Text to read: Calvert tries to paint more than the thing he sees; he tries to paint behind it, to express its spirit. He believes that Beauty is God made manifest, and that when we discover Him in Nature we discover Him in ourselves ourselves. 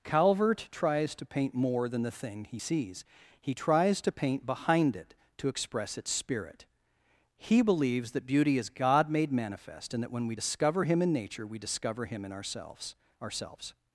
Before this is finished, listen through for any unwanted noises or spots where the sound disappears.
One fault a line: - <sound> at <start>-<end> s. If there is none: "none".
none